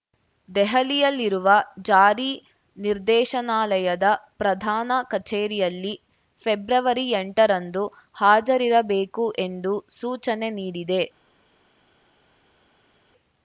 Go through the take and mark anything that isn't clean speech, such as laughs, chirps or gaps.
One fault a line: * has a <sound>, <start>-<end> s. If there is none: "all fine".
all fine